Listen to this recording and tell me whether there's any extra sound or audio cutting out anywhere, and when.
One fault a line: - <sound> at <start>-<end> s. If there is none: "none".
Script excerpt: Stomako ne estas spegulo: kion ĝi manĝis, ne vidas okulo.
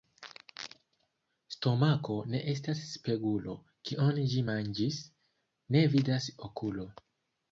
none